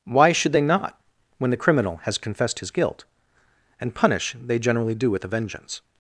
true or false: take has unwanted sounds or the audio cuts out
false